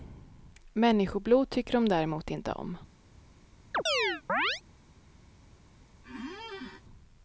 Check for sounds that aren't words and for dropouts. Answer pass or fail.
fail